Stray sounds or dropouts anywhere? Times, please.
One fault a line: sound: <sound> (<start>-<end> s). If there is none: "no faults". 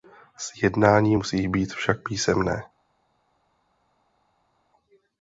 no faults